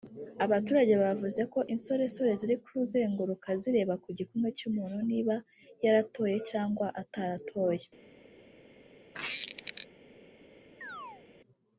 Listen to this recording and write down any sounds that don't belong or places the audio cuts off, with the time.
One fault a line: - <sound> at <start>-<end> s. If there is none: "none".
- squeak at 9.1-9.9 s
- chirp at 10.8-11.2 s